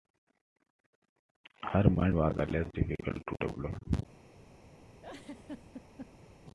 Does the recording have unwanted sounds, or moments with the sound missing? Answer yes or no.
yes